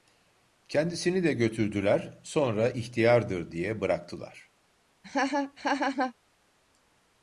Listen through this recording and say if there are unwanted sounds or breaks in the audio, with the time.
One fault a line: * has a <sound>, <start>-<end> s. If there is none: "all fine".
* has a laugh, 5.0-6.1 s